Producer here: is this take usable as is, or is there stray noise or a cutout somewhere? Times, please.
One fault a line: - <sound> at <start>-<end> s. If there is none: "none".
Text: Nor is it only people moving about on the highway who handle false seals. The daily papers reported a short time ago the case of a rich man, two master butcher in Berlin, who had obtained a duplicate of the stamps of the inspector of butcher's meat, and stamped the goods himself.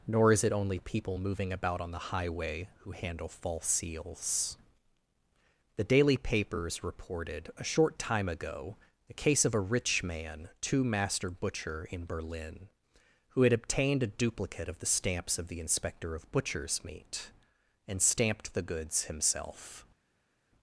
none